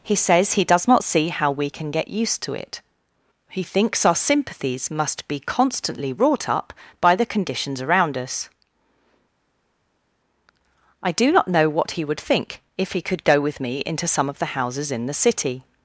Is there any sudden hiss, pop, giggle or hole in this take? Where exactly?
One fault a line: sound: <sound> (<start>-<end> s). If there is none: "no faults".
no faults